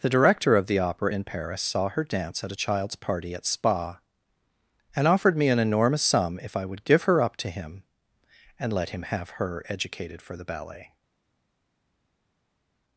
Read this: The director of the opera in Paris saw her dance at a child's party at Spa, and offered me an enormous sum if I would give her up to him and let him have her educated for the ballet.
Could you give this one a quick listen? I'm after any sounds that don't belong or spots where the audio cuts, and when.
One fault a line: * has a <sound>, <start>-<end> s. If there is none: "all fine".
all fine